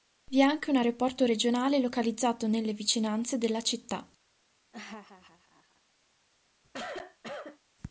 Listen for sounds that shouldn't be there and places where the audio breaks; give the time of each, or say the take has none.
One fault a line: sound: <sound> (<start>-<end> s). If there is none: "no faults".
sound: laugh (4.7-5.8 s)
sound: cough (6.6-7.6 s)